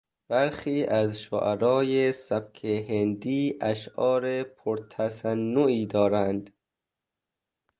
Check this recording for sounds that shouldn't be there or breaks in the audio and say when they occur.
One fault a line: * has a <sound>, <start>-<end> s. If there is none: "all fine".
all fine